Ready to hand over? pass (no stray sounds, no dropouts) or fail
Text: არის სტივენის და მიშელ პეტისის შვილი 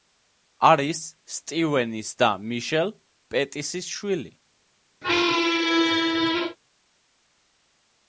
fail